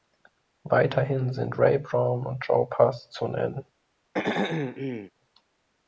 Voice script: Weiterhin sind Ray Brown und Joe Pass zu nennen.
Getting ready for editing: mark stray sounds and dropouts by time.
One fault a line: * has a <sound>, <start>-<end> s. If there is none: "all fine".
* has a throat clearing, 4.1-5.1 s